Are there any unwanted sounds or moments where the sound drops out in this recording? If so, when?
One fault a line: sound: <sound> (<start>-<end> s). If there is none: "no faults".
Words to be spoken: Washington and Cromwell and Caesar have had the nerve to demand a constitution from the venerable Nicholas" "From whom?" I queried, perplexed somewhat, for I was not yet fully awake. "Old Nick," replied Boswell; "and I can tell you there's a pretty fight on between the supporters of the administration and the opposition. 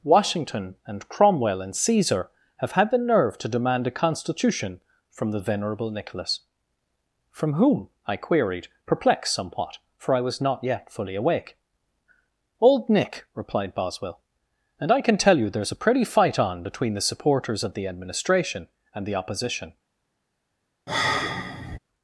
sound: sigh (20.9-21.8 s)